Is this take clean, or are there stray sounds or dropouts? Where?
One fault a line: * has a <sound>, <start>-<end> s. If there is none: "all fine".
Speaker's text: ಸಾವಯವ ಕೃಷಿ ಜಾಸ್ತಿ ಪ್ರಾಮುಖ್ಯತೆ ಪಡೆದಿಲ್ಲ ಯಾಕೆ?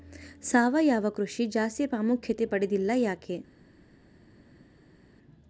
all fine